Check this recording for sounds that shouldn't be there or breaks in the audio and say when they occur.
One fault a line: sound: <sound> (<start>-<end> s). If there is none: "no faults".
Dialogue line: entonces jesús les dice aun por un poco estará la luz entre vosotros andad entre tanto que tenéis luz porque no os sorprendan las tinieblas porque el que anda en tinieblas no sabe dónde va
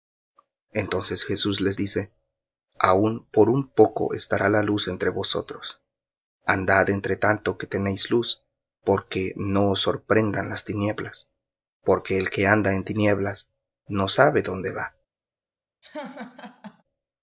sound: laugh (15.8-16.8 s)